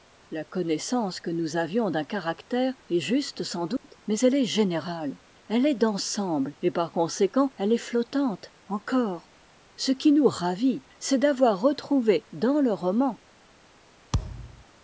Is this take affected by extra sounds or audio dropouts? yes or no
yes